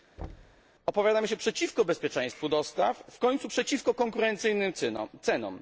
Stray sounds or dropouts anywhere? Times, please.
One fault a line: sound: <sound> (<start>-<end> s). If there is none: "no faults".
sound: thud (0.2-0.6 s)